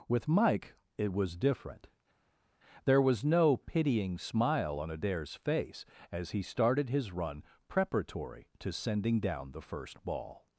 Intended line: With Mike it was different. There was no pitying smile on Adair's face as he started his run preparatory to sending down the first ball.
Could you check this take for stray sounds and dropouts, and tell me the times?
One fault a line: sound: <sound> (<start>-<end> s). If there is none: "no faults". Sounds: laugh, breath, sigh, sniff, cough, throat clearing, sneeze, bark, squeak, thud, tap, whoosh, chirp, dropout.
no faults